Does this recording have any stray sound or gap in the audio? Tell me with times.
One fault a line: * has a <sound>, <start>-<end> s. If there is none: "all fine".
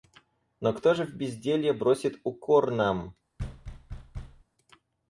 * has a thud, 3.4-4.4 s